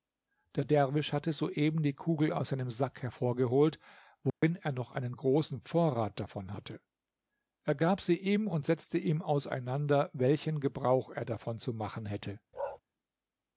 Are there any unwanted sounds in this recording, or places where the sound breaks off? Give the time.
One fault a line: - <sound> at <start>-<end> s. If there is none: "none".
- dropout at 4.3-4.4 s
- bark at 12.5-12.8 s